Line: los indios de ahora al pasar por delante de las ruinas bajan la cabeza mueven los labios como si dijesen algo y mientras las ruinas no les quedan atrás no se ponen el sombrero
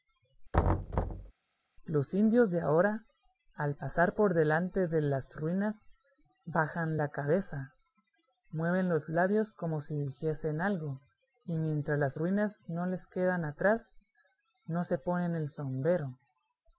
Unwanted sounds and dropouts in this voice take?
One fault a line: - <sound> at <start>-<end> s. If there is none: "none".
- thud at 0.5-1.3 s